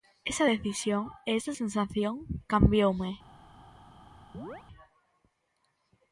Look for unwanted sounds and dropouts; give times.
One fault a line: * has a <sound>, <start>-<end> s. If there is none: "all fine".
* has a chirp, 4.3-4.6 s